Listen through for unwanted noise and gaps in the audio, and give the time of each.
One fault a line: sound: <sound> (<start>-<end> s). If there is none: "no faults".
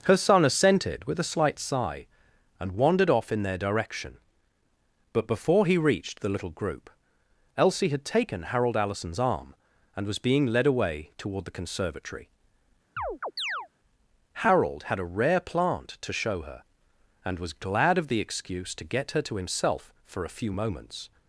sound: chirp (13.0-13.7 s)